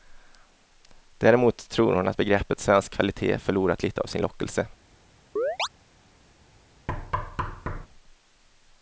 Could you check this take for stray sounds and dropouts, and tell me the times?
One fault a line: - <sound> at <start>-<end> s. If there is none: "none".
- chirp at 5.4-5.7 s
- thud at 6.9-7.9 s